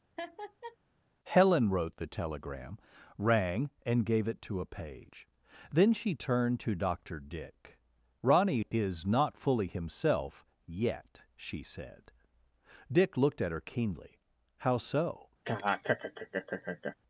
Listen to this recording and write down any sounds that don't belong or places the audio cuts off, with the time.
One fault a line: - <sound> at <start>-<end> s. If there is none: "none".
- laugh at 0.2-0.8 s
- laugh at 15.4-17.0 s